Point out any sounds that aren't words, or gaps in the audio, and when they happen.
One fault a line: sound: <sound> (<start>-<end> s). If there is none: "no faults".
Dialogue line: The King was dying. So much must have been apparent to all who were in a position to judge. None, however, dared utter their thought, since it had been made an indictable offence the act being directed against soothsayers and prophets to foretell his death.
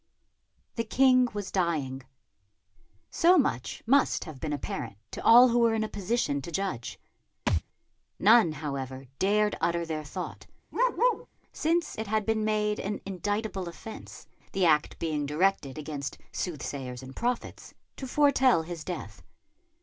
sound: thud (7.5-7.6 s)
sound: bark (10.7-11.3 s)